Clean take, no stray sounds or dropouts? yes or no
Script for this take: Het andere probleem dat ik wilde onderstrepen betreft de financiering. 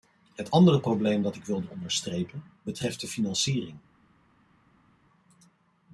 yes